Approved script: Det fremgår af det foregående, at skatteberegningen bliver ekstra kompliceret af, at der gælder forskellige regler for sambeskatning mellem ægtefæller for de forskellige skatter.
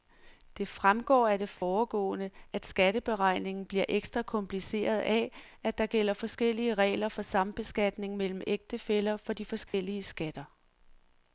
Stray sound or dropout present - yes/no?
yes